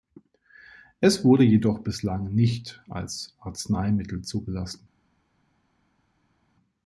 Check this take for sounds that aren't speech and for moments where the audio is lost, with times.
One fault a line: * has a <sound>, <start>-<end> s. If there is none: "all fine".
all fine